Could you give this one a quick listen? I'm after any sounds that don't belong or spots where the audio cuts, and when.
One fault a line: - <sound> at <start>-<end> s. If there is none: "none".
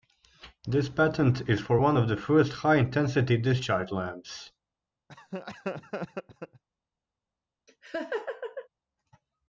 - laugh at 5.1-6.6 s
- laugh at 7.7-8.7 s